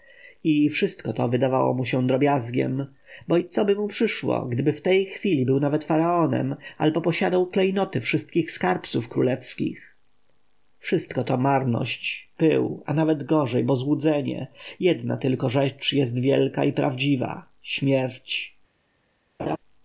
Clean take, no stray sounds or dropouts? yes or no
no